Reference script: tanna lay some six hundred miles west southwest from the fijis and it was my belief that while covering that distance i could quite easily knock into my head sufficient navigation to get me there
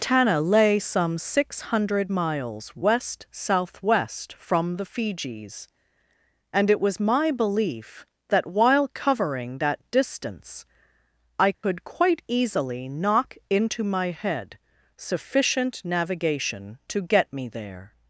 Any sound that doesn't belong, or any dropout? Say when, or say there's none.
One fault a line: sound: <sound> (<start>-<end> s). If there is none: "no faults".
sound: dropout (11.5-11.6 s)